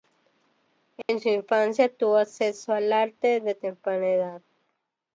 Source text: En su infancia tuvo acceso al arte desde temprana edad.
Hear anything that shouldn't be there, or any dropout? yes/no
yes